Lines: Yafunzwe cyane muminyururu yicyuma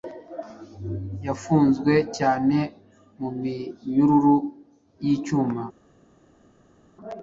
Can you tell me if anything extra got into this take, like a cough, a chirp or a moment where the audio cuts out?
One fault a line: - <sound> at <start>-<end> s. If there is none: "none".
none